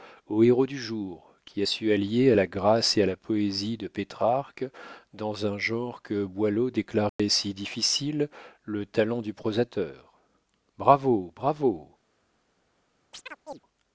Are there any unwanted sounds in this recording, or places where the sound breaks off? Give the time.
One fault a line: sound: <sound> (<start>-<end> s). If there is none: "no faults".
sound: dropout (7.1-7.2 s)
sound: chirp (13.1-13.6 s)